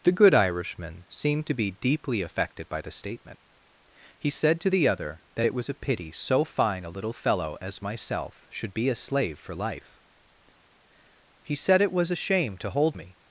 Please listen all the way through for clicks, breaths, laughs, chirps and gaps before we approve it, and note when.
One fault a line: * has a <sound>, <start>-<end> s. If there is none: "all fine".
all fine